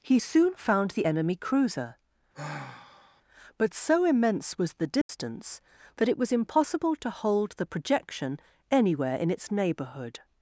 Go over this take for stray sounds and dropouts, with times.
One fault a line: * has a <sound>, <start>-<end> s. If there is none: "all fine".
* has a sigh, 2.3-3.2 s
* has a dropout, 5.0-5.1 s